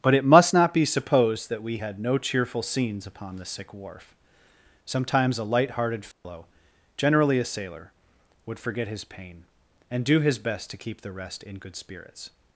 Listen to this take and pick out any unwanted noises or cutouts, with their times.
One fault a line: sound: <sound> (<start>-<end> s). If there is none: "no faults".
sound: dropout (6.1-6.2 s)